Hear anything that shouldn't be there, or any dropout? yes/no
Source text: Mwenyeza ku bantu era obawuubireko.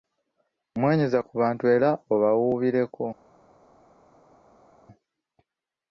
no